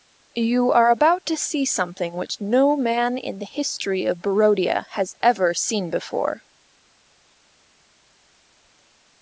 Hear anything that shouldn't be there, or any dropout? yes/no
no